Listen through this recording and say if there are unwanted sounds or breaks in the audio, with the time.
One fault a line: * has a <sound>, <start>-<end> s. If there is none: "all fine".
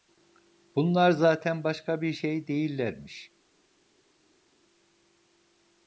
all fine